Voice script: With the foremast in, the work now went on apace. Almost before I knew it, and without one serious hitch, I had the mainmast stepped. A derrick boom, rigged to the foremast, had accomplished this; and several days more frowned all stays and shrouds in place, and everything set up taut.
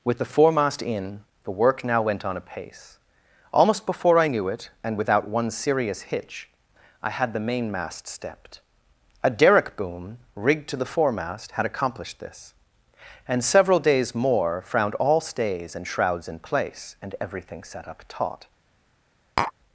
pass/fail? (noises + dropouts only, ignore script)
fail